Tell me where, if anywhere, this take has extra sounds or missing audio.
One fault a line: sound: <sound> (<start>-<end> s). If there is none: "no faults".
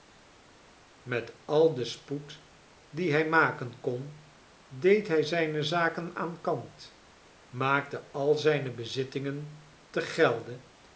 no faults